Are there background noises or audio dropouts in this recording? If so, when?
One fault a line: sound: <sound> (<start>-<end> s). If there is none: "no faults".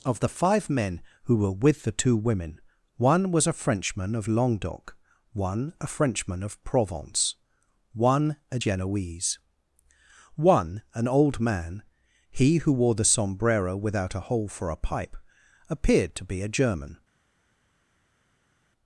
no faults